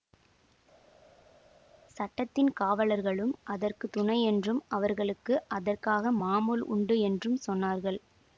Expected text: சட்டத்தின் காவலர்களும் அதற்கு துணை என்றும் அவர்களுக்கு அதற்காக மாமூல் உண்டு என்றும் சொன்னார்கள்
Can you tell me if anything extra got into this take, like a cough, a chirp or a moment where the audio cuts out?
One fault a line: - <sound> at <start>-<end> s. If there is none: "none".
none